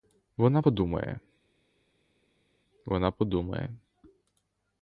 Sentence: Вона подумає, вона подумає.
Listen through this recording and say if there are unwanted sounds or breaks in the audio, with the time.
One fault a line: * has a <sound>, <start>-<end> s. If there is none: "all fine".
all fine